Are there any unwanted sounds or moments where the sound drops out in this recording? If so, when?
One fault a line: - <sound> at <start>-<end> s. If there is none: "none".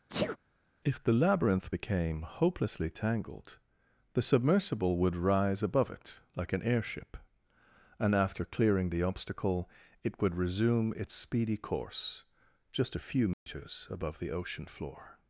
- sneeze at 0.1-0.4 s
- dropout at 13.3-13.5 s